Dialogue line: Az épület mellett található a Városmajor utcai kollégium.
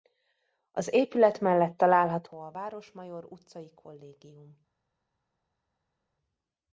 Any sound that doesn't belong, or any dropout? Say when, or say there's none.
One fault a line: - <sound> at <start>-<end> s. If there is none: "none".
none